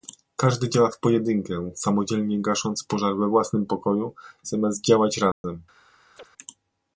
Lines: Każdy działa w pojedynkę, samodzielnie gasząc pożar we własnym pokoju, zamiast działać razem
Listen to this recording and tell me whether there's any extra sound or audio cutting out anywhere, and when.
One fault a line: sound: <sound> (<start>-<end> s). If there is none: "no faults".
sound: dropout (5.3-5.4 s)
sound: chirp (6.2-6.3 s)